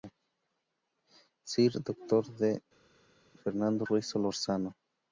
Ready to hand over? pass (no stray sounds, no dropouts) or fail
pass